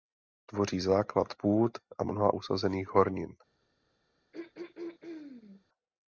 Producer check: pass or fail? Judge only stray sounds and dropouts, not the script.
fail